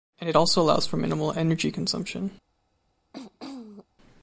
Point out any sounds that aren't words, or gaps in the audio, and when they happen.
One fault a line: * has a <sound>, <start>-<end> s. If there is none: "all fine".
* has a throat clearing, 3.1-3.9 s